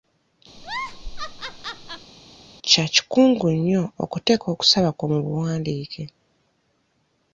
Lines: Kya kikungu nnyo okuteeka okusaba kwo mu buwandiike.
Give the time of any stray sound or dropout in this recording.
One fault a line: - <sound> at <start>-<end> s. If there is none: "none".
- laugh at 0.6-2.1 s